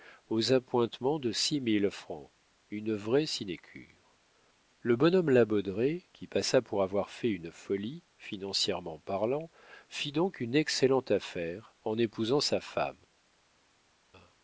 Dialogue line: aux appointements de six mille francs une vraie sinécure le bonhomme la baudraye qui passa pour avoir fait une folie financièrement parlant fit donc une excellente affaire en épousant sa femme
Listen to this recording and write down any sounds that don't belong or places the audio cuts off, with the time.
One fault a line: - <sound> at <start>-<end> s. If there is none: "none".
none